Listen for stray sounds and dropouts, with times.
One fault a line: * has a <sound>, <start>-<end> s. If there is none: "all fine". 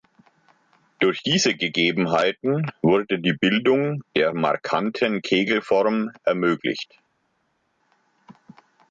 all fine